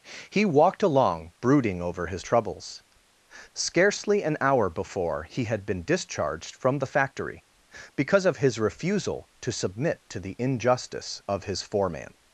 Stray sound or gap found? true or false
false